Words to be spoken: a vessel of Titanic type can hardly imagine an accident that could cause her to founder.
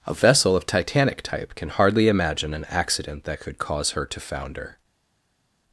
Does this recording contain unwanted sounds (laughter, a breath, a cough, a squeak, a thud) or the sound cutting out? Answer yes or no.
no